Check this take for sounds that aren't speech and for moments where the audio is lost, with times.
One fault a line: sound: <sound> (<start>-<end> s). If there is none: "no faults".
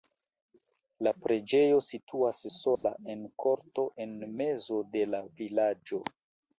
sound: dropout (2.8-2.8 s)